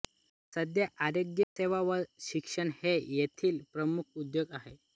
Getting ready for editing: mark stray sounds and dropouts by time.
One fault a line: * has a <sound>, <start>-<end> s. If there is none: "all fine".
* has a dropout, 1.4-1.6 s